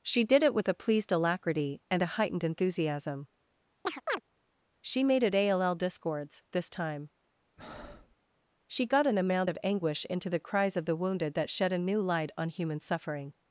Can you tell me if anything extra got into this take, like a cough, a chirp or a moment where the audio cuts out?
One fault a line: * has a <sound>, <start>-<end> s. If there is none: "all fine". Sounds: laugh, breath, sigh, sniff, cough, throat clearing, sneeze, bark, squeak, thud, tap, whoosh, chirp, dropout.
* has a chirp, 3.9-4.2 s
* has a breath, 7.6-8.2 s